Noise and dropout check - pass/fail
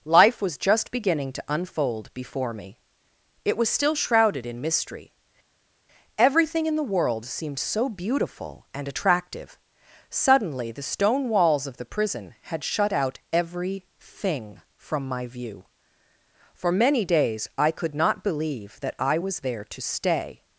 pass